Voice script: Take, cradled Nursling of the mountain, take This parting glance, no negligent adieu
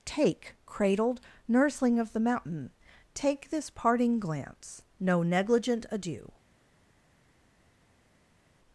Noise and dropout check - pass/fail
pass